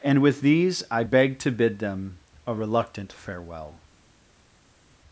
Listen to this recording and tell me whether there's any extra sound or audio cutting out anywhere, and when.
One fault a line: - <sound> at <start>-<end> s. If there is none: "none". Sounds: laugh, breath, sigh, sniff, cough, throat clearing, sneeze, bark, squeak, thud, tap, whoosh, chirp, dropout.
none